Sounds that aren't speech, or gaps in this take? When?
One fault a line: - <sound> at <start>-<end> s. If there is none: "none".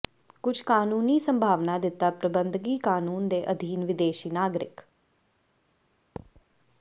- thud at 6.2-6.4 s